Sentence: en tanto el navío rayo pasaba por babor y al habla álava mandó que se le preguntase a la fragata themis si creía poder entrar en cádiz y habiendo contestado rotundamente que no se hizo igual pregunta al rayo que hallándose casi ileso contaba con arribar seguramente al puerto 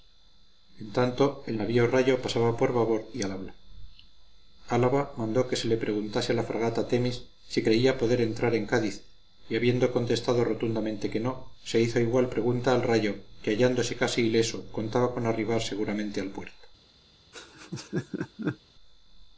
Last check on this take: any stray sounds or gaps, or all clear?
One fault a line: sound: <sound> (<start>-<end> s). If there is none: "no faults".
sound: laugh (17.3-18.6 s)